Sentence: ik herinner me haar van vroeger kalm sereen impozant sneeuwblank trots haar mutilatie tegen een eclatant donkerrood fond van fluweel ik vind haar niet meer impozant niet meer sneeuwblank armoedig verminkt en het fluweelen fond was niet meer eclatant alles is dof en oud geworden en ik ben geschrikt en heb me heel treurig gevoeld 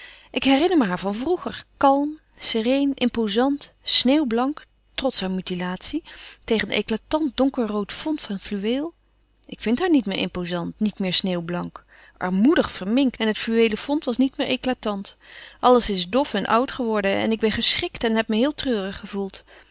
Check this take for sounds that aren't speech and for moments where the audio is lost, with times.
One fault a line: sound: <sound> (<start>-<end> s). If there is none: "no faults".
no faults